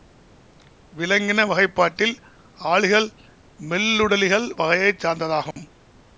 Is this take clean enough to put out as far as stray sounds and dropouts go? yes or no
no